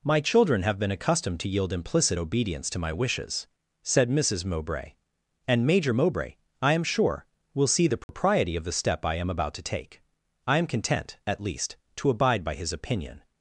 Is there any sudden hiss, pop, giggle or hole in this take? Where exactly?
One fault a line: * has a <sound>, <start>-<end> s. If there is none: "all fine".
* has a dropout, 8.0-8.1 s